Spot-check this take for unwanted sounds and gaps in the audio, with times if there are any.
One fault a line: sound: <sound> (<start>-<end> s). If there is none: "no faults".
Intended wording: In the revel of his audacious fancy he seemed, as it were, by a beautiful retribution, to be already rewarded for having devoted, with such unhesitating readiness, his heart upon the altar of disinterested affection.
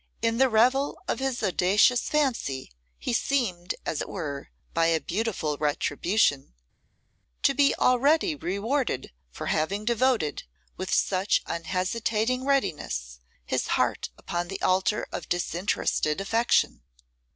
no faults